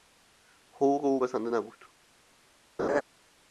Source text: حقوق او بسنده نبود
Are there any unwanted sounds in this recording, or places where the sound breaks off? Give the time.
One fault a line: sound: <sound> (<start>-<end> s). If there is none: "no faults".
sound: laugh (2.8-3.0 s)